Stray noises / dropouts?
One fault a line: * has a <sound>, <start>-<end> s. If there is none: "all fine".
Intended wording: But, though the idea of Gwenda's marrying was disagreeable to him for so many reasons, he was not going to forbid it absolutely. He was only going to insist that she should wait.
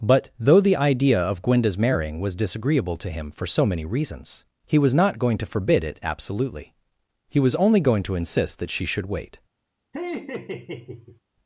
* has a laugh, 9.9-11.2 s